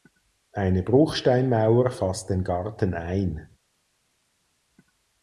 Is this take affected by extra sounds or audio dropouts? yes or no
no